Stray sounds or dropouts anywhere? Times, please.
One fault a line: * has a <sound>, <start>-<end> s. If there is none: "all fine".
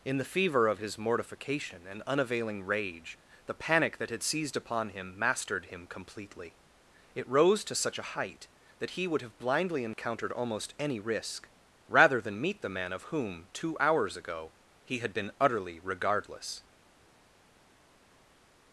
all fine